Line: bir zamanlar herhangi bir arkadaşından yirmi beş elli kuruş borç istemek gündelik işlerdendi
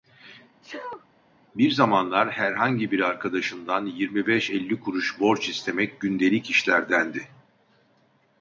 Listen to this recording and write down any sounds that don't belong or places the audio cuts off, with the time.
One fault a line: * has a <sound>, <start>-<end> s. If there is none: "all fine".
* has a sneeze, 0.6-1.1 s